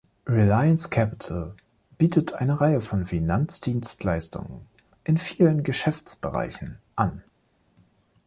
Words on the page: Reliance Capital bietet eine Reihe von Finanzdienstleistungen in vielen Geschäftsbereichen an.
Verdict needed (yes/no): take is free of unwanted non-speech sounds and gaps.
yes